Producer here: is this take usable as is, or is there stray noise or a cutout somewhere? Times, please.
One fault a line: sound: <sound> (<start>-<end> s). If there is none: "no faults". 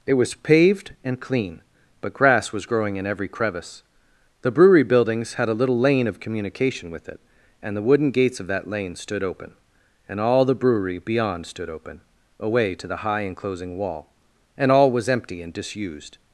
no faults